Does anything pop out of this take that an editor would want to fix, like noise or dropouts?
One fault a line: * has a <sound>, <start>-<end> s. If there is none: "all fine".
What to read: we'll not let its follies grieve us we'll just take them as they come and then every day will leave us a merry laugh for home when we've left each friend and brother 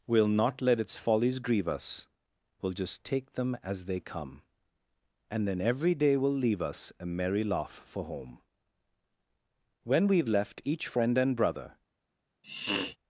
* has a sniff, 12.4-13.0 s